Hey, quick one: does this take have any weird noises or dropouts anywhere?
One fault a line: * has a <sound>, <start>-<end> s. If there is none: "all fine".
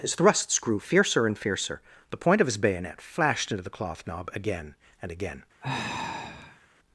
* has a sigh, 5.6-6.7 s